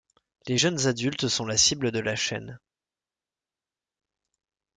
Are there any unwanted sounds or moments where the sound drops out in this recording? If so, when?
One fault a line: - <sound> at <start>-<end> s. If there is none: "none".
none